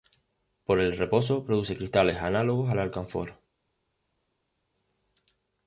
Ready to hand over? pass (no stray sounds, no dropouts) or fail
pass